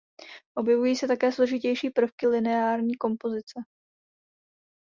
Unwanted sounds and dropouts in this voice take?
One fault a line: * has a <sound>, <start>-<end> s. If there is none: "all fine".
all fine